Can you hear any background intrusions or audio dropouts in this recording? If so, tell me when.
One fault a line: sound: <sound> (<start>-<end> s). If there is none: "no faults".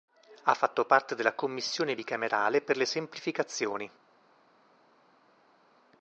no faults